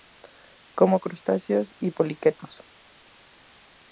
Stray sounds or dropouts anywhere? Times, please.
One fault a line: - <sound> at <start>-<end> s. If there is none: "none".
none